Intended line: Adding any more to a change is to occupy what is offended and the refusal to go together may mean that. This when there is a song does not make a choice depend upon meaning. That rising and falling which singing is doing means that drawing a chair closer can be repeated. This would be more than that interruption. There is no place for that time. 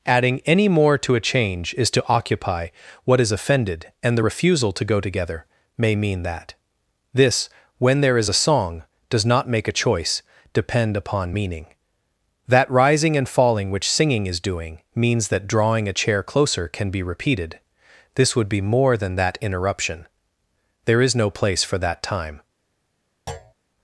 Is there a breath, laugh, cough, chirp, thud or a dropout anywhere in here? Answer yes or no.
yes